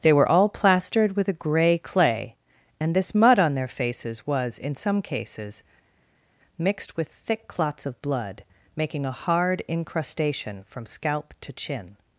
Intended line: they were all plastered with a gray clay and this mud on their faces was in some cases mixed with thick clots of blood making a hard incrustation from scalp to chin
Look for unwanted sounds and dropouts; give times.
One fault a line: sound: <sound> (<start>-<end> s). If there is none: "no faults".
no faults